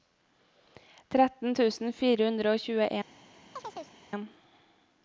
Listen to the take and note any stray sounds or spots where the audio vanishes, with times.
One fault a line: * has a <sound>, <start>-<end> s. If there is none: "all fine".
* has a chirp, 3.6-4.0 s